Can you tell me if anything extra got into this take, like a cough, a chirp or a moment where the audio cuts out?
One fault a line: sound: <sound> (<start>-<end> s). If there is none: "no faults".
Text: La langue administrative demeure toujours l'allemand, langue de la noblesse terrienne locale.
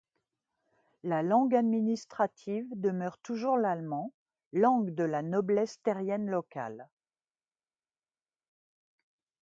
no faults